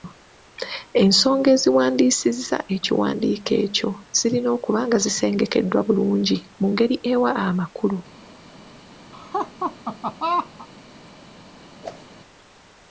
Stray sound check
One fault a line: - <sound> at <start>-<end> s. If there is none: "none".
- laugh at 9.1-10.7 s
- whoosh at 11.8-12.1 s